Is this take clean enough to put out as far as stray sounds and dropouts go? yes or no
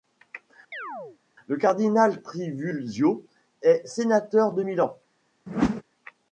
no